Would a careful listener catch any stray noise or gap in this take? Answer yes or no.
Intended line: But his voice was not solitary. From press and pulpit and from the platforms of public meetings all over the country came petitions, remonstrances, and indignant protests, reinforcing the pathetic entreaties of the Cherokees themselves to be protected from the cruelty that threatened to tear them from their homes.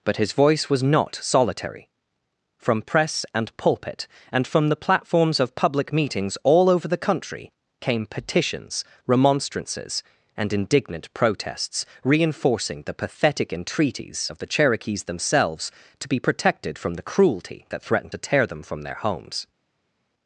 no